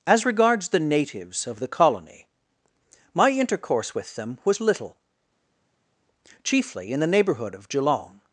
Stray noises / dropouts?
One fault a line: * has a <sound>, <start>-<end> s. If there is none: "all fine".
all fine